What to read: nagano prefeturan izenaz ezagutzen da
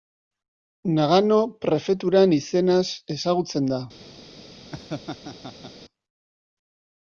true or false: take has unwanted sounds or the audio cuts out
true